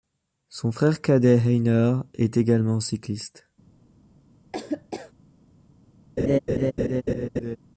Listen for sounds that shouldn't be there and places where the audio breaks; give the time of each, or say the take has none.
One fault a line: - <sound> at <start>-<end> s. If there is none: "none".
- laugh at 4.5-5.1 s
- laugh at 6.2-7.6 s